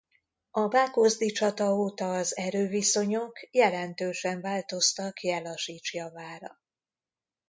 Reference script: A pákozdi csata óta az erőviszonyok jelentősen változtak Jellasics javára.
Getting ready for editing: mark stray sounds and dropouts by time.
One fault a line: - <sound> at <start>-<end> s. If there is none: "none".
none